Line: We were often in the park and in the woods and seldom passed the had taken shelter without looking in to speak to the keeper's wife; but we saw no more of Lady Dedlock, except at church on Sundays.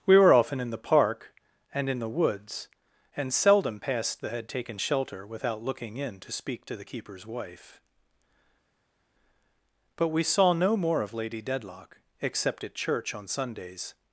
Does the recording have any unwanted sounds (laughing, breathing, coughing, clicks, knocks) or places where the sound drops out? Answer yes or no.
no